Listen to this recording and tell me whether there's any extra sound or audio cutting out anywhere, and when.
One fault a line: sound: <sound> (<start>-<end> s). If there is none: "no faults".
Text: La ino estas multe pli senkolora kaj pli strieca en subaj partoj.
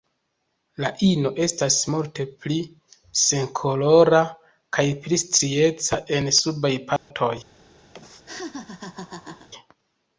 sound: dropout (7.0-7.1 s)
sound: laugh (7.9-9.5 s)